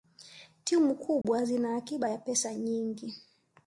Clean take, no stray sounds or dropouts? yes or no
no